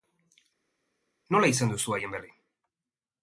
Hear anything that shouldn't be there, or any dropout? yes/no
no